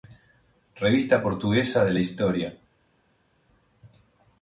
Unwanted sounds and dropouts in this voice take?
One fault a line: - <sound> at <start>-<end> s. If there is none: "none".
none